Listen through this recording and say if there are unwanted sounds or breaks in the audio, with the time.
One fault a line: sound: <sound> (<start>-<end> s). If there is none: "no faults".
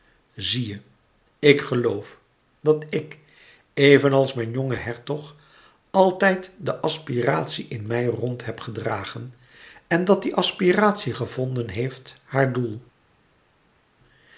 no faults